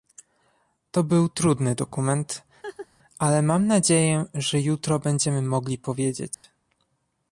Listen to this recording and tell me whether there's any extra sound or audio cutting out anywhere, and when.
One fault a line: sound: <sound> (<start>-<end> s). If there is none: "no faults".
sound: laugh (2.6-2.9 s)
sound: dropout (6.3-6.4 s)